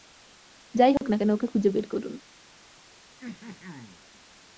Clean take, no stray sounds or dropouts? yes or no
no